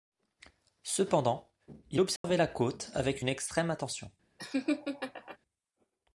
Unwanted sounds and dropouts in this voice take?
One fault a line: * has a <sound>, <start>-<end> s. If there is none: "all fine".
* has a dropout, 2.2-2.2 s
* has a laugh, 4.4-5.4 s